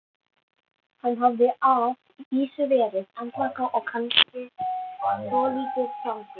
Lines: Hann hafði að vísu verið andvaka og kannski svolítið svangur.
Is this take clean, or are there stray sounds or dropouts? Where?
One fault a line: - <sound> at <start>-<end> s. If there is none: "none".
- dropout at 4.2-4.3 s